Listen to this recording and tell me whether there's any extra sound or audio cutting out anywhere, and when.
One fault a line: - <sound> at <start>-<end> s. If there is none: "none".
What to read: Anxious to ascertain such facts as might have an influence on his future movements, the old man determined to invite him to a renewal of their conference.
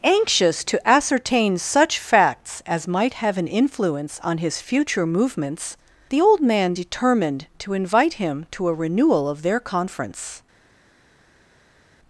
none